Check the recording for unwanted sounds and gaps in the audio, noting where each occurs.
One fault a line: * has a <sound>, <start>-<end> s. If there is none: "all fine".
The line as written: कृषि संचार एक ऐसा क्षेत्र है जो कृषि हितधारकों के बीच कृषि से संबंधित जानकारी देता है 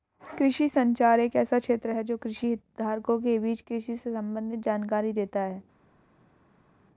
all fine